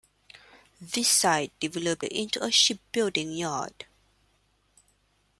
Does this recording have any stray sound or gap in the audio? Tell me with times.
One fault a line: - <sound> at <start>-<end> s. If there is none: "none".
none